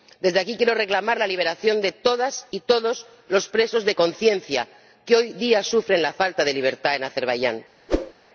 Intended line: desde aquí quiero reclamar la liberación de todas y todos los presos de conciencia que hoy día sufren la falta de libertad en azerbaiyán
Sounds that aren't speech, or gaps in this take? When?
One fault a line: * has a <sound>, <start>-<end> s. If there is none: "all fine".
* has a whoosh, 7.9-8.1 s